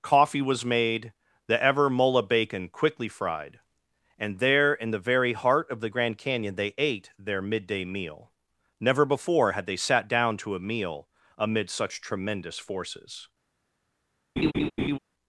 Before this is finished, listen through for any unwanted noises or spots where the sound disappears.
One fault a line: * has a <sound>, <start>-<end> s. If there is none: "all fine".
* has a laugh, 14.4-15.0 s